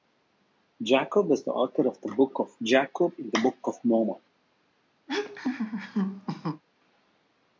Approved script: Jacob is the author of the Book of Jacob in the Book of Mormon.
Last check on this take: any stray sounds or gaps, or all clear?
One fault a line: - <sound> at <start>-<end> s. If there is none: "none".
- laugh at 5.1-6.6 s